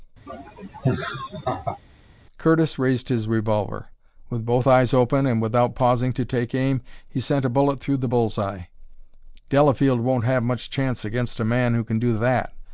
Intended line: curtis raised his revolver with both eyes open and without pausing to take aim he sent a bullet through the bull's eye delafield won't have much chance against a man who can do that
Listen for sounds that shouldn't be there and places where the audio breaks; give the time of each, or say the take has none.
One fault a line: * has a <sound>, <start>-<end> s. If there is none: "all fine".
* has a laugh, 0.3-1.8 s